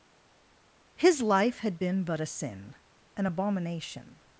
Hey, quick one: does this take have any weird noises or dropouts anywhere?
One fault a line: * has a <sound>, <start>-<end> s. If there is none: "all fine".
all fine